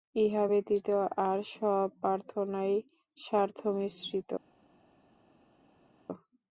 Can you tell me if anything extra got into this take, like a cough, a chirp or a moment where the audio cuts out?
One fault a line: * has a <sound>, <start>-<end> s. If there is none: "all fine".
all fine